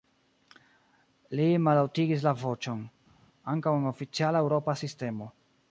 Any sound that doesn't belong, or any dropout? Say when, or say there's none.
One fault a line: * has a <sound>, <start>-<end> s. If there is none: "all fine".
all fine